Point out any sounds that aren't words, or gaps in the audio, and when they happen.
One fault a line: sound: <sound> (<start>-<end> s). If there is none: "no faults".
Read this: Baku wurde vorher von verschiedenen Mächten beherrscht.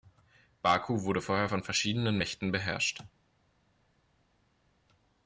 no faults